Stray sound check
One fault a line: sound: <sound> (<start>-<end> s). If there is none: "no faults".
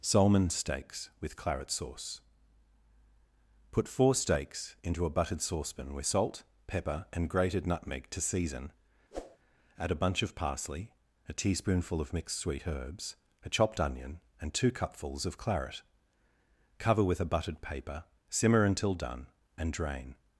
sound: whoosh (9.1-9.4 s)